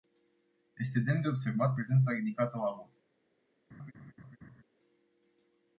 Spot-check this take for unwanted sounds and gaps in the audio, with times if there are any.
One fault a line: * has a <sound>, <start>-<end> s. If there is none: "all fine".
* has a laugh, 3.7-4.6 s